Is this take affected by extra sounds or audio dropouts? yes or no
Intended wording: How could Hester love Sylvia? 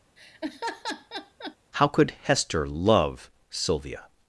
yes